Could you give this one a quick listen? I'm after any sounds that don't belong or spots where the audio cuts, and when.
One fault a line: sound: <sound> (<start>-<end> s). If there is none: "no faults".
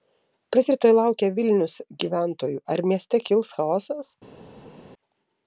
no faults